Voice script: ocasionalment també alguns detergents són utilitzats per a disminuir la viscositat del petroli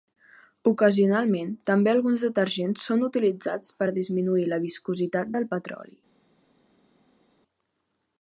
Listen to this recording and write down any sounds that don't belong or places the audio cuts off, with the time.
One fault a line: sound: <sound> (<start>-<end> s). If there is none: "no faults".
no faults